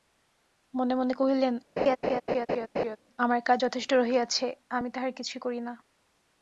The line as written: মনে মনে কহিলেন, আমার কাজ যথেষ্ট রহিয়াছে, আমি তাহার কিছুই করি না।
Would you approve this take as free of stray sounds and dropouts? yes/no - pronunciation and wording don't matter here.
no